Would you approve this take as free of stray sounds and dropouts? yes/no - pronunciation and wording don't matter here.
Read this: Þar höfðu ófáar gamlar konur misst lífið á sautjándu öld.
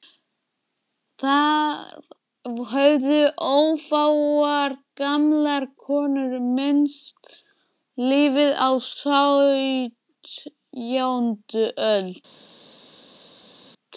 yes